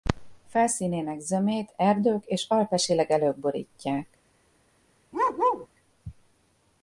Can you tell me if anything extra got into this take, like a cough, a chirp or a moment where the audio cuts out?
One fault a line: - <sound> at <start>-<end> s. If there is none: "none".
- bark at 5.1-5.7 s